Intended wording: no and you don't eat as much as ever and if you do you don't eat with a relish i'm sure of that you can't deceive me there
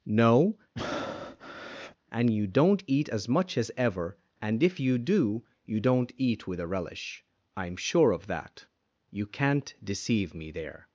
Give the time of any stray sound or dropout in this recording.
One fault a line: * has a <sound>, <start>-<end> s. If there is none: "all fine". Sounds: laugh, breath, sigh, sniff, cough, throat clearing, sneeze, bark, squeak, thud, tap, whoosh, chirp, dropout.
* has a breath, 0.8-2.0 s